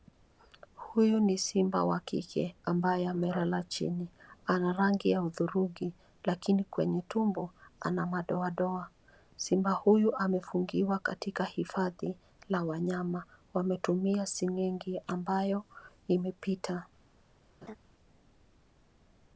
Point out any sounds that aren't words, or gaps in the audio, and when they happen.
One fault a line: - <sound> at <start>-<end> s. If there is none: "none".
- laugh at 17.6-17.8 s